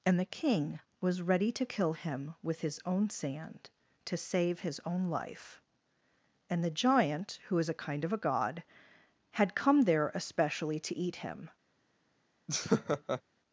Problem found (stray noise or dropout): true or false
true